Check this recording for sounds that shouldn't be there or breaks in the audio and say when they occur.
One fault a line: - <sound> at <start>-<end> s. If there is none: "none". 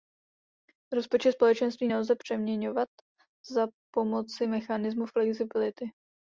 none